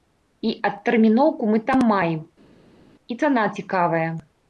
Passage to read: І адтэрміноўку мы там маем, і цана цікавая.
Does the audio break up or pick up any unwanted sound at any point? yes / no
no